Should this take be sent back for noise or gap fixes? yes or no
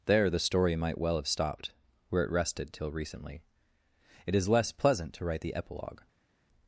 no